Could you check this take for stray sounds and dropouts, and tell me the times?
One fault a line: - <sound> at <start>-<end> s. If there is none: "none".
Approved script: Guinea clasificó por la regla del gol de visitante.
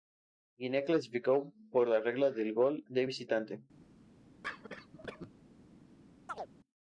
- cough at 4.4-5.3 s
- chirp at 6.3-6.5 s